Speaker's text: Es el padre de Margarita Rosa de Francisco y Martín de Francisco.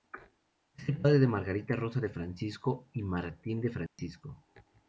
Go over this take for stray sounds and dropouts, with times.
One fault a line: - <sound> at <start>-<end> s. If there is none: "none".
- dropout at 3.9-4.0 s